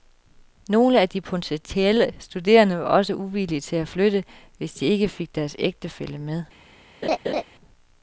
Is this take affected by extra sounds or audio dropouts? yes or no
yes